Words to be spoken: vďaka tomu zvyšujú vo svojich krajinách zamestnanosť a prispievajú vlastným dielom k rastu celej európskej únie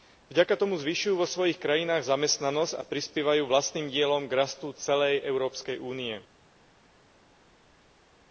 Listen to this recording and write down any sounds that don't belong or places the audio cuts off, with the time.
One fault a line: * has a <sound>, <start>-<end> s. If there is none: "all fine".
all fine